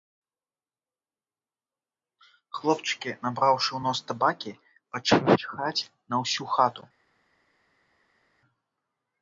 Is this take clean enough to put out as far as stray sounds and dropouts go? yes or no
yes